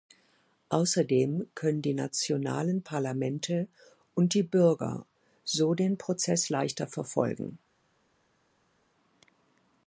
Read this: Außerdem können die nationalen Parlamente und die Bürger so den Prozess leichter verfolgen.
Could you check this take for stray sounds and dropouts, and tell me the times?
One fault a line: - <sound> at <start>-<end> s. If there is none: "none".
none